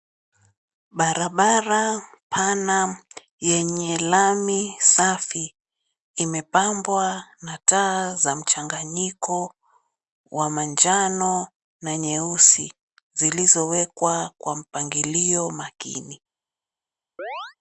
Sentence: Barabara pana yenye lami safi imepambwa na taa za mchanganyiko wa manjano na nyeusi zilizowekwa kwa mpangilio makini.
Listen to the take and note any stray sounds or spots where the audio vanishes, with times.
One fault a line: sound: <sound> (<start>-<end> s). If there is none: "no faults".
sound: chirp (17.2-17.6 s)